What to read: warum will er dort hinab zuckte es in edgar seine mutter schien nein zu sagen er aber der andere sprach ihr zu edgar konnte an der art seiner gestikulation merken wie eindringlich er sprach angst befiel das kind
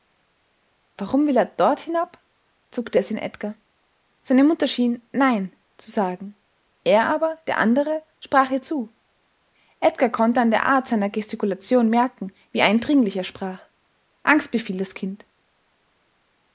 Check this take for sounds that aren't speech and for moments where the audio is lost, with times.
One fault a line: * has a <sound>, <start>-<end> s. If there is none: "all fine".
all fine